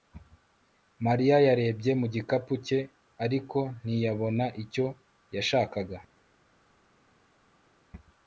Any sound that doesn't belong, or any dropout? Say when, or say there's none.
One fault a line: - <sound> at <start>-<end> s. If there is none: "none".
none